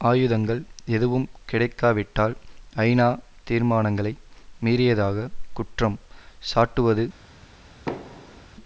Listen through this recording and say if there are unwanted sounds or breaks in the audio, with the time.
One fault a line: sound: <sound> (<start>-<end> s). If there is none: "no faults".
sound: thud (7.9-8.5 s)